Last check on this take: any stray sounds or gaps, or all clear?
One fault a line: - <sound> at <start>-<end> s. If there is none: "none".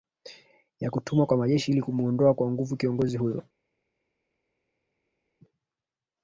none